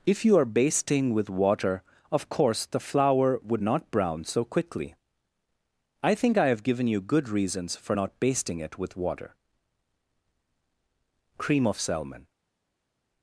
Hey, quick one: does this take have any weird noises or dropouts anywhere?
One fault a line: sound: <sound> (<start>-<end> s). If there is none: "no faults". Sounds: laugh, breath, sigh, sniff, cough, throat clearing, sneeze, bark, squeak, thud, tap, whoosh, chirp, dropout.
no faults